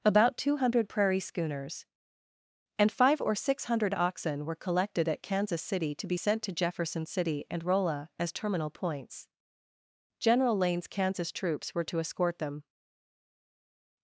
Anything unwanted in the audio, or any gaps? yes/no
no